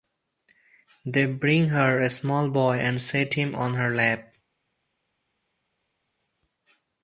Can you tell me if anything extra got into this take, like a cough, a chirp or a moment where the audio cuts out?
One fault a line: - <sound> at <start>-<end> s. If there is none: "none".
none